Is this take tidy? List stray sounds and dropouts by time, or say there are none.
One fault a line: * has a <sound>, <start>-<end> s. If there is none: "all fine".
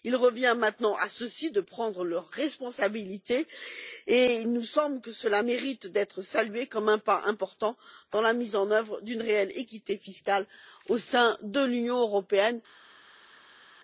all fine